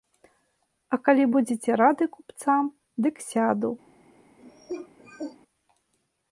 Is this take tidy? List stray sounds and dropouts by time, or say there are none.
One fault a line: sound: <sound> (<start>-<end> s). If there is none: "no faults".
sound: cough (4.4-5.4 s)